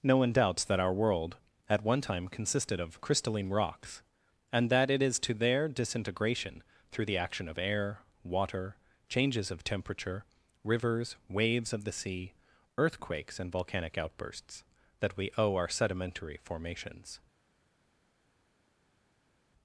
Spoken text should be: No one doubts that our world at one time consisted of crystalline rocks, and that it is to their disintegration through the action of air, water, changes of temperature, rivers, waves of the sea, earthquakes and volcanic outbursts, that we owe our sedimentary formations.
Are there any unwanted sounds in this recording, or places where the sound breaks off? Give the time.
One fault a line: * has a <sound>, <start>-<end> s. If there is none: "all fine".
all fine